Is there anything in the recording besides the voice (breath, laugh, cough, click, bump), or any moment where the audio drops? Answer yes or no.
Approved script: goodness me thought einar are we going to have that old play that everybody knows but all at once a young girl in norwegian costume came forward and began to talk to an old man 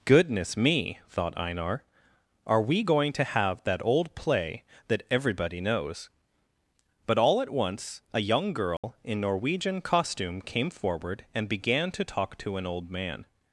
yes